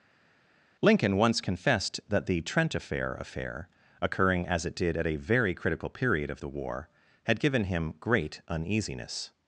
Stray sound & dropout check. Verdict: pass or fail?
pass